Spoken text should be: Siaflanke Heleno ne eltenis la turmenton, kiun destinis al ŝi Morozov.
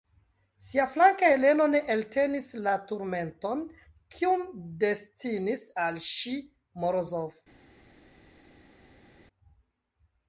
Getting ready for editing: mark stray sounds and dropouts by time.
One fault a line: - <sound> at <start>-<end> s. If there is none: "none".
none